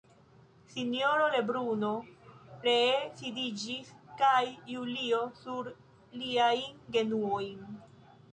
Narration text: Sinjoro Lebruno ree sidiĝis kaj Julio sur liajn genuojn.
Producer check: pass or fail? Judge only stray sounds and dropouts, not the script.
pass